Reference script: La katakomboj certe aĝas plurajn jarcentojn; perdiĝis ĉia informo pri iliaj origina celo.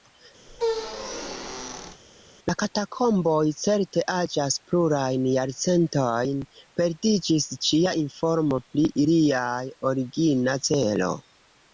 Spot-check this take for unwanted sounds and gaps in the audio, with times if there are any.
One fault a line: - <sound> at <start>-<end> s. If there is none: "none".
- squeak at 0.5-2.0 s